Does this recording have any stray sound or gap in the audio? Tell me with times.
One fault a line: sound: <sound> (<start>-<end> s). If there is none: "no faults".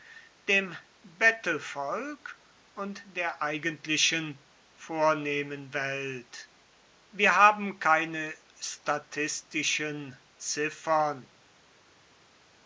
no faults